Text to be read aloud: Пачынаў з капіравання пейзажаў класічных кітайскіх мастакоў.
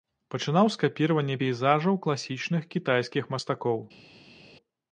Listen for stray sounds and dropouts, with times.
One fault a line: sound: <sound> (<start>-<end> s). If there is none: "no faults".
no faults